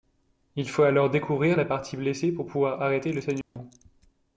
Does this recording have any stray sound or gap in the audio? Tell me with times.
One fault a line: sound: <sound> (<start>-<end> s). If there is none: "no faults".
sound: dropout (3.4-3.6 s)